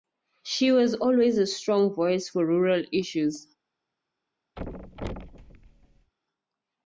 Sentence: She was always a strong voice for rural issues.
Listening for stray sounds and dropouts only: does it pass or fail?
fail